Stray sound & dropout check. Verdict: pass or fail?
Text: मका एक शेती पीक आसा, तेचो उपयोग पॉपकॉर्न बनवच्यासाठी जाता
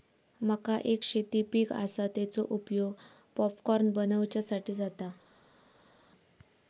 pass